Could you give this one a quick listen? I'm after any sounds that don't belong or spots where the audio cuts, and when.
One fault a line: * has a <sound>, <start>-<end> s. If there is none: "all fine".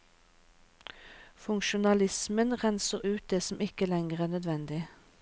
all fine